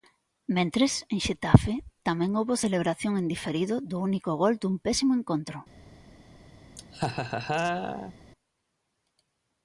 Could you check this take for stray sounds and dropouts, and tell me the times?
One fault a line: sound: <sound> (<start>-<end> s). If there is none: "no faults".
sound: laugh (6.8-8.1 s)